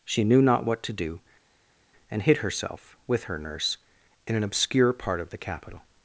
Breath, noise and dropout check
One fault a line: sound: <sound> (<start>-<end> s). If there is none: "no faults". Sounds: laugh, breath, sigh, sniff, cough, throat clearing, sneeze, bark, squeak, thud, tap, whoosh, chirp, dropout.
no faults